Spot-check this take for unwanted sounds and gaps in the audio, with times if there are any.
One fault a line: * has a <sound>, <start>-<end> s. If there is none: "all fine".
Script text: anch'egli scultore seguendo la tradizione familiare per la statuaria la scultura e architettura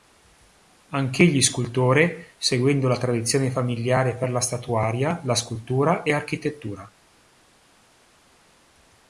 all fine